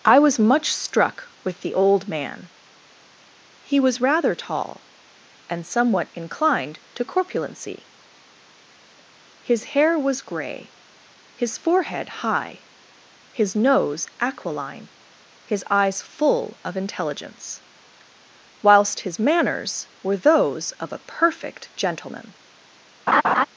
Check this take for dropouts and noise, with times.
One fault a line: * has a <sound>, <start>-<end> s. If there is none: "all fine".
* has a laugh, 23.1-23.5 s